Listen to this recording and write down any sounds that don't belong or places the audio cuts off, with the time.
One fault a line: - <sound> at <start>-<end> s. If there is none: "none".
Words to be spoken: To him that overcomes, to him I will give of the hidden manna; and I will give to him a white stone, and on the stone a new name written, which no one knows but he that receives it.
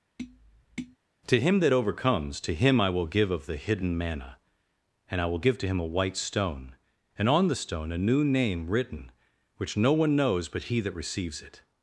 - tap at 0.2-1.0 s